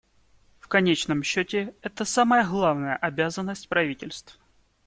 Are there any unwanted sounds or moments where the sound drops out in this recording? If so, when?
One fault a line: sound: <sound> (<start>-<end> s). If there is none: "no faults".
no faults